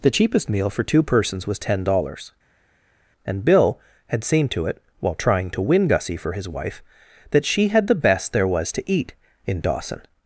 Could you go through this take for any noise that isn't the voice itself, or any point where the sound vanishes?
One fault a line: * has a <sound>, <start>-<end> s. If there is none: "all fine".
all fine